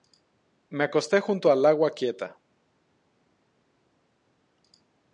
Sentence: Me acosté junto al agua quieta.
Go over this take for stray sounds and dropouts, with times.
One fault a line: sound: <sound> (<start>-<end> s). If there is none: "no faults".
no faults